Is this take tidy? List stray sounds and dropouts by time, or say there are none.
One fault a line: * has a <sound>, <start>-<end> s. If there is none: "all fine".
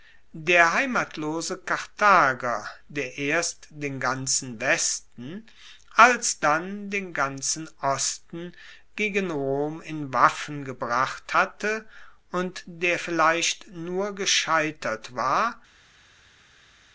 all fine